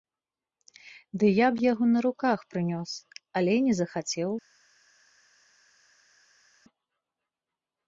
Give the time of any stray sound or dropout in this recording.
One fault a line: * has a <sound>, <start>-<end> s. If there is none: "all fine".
all fine